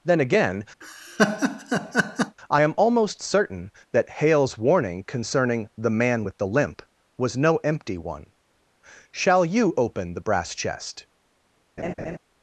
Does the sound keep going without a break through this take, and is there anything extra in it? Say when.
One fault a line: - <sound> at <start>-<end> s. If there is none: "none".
- laugh at 0.8-2.4 s
- laugh at 11.8-12.2 s